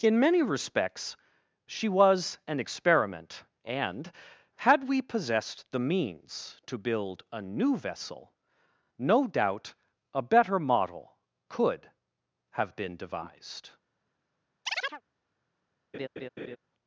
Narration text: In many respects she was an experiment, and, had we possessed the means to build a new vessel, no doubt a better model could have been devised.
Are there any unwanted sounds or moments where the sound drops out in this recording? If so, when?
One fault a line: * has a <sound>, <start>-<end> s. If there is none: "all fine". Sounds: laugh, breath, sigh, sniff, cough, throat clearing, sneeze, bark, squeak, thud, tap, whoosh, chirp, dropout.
* has a chirp, 14.7-15.0 s
* has a laugh, 15.9-16.6 s